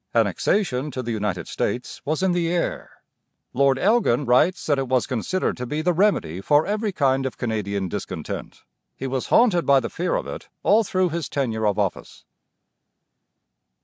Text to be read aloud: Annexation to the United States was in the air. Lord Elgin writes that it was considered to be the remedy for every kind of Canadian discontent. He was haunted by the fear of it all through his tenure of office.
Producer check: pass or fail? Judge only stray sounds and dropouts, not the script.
pass